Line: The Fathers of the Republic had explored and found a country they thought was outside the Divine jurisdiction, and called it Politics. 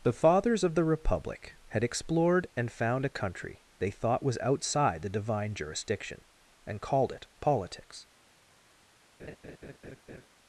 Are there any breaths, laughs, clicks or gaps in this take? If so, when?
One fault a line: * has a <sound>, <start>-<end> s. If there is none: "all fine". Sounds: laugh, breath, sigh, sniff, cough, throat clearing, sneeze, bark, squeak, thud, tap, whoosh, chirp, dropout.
* has a laugh, 9.2-10.3 s